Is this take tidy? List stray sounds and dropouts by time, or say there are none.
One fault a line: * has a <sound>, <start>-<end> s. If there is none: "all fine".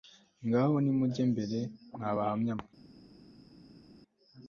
all fine